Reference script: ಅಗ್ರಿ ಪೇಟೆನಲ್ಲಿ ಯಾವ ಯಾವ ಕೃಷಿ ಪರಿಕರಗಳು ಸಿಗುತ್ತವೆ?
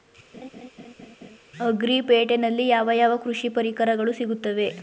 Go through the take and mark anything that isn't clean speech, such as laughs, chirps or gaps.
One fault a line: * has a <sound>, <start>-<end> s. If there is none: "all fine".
* has a laugh, 0.3-1.4 s